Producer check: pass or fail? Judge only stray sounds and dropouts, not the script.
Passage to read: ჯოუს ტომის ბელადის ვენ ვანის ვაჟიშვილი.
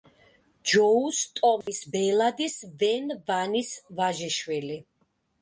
fail